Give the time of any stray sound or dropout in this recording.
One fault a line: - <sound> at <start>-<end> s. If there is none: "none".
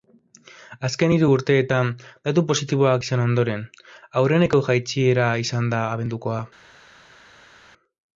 none